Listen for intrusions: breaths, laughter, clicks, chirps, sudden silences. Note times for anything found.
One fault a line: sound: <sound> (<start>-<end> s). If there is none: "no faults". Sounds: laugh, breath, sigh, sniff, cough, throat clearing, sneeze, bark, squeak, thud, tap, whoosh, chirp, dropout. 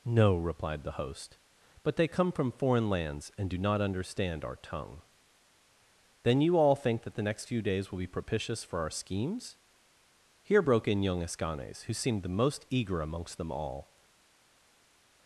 no faults